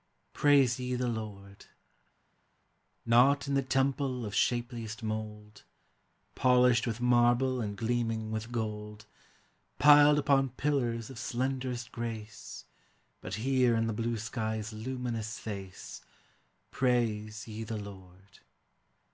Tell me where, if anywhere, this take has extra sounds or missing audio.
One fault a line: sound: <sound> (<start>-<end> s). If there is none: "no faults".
no faults